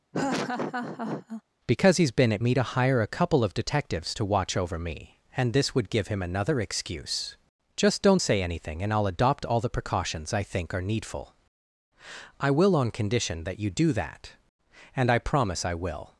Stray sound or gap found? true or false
true